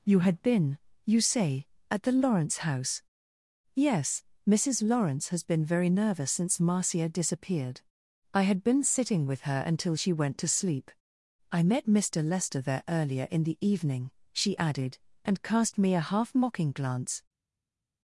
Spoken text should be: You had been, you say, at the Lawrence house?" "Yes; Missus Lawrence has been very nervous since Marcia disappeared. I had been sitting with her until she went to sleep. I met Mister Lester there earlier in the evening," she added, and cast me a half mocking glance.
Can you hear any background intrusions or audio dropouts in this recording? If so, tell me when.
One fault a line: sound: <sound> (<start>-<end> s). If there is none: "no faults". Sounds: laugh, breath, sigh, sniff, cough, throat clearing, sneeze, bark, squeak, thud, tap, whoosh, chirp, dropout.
no faults